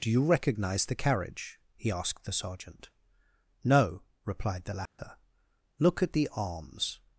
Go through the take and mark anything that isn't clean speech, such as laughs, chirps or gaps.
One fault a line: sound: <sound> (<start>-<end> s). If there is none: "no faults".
sound: dropout (4.9-5.0 s)